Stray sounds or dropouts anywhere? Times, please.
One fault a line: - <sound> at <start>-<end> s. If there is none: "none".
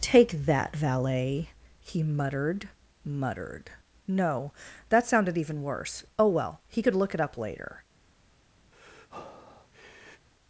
- breath at 8.7-10.3 s